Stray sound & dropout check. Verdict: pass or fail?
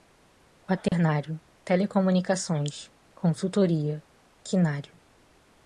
fail